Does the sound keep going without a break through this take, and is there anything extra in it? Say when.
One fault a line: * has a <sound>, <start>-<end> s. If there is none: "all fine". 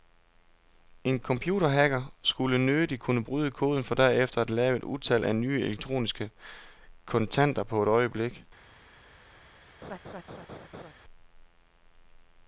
* has a laugh, 9.8-10.9 s